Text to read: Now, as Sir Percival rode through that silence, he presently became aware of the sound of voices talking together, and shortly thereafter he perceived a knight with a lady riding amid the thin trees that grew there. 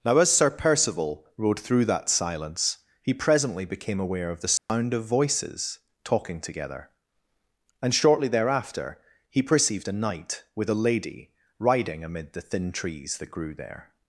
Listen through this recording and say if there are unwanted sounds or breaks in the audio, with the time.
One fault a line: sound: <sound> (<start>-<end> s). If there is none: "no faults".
sound: dropout (4.6-4.7 s)